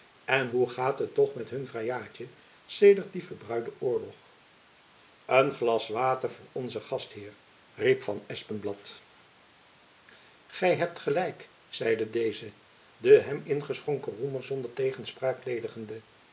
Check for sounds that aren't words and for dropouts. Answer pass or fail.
pass